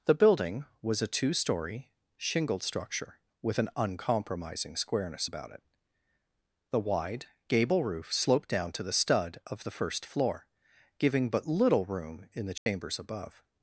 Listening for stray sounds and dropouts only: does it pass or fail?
fail